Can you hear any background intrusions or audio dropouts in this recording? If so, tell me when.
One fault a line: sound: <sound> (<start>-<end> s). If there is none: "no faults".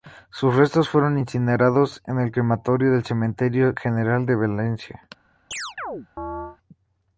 sound: chirp (5.5-6.6 s)